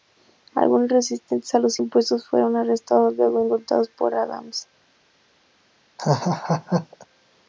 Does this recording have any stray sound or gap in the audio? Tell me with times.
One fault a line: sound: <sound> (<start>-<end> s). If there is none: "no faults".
sound: laugh (6.0-7.1 s)